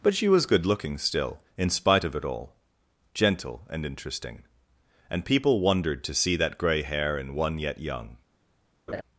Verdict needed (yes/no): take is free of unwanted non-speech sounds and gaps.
no